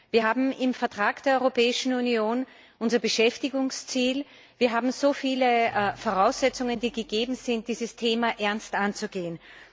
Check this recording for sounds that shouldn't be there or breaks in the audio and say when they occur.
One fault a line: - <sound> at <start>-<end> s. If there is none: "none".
none